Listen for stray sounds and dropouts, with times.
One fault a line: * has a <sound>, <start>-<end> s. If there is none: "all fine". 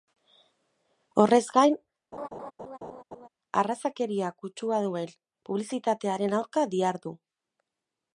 * has a laugh, 2.1-3.3 s